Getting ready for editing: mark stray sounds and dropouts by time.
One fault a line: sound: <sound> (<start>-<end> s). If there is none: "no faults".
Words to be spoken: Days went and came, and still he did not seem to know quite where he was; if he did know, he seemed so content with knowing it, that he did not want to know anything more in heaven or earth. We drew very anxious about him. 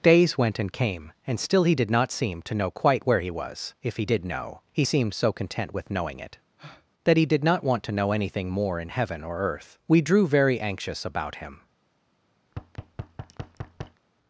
sound: breath (6.6-6.9 s)
sound: thud (12.5-14.0 s)